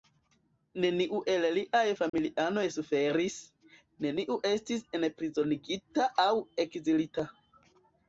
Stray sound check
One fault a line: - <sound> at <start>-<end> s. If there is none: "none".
- dropout at 2.1-2.1 s